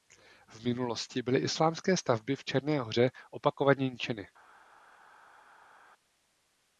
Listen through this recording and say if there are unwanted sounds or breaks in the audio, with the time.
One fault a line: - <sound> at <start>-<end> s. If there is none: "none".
none